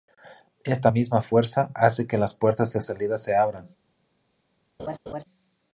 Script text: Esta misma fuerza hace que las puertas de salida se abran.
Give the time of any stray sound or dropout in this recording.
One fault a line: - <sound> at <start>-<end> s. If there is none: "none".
- laugh at 4.8-5.2 s